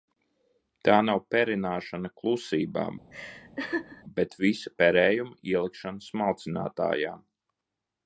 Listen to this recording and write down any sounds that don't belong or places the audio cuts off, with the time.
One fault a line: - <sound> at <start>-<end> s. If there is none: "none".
- laugh at 3.1-4.0 s